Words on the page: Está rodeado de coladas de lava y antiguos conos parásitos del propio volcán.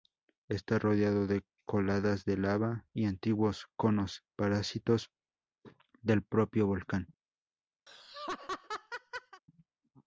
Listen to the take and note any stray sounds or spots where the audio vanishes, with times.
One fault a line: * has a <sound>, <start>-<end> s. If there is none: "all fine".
* has a laugh, 7.9-9.4 s